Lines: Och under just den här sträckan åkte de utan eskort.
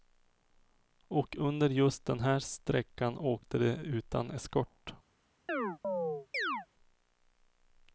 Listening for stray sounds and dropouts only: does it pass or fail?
fail